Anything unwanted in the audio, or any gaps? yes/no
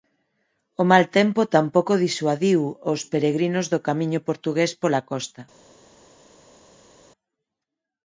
no